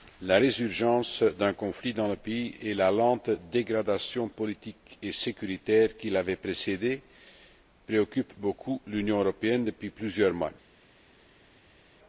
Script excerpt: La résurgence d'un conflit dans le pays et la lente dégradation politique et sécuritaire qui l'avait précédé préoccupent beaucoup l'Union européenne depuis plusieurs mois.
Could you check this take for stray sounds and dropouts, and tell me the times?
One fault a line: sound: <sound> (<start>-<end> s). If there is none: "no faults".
no faults